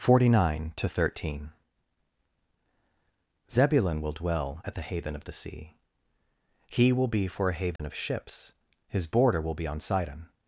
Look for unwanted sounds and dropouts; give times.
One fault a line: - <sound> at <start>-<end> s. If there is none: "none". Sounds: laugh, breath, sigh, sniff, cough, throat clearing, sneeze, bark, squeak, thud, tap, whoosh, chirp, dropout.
- dropout at 7.8-7.8 s